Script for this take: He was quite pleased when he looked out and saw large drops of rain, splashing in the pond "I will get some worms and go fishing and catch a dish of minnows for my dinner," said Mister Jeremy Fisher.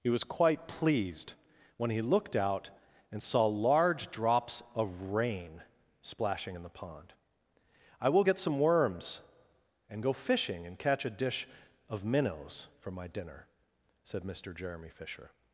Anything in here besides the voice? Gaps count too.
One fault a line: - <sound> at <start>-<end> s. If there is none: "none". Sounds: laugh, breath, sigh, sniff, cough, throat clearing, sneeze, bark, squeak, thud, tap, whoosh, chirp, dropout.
none